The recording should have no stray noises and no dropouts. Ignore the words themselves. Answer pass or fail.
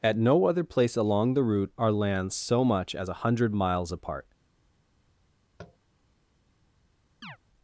fail